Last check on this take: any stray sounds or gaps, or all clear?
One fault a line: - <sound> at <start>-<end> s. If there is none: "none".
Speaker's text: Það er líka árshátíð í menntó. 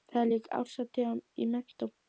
none